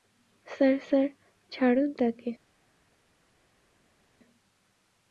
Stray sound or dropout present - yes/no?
no